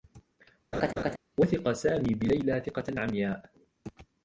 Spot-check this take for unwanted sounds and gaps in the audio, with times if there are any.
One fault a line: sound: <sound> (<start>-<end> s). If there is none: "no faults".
sound: laugh (0.7-1.2 s)